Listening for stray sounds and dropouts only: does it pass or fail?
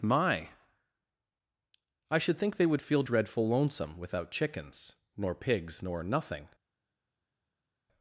pass